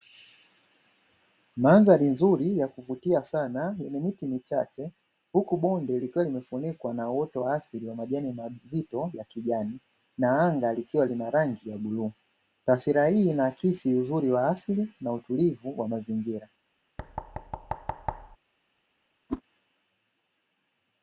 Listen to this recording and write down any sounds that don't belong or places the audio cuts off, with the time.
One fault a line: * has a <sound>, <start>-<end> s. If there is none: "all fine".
* has a thud, 17.0-18.4 s
* has a whoosh, 19.3-19.4 s